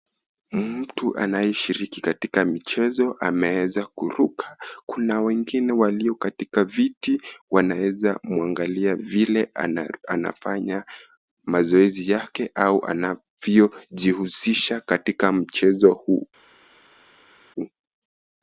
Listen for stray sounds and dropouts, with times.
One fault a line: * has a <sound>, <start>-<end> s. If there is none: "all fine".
all fine